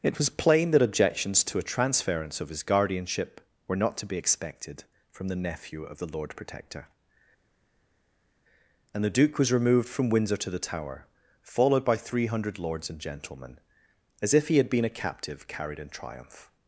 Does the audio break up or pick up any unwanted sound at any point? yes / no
no